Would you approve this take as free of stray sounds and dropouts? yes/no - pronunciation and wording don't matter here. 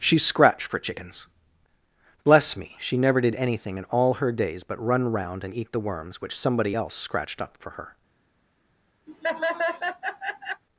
no